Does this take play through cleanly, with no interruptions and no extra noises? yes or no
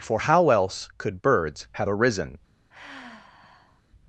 no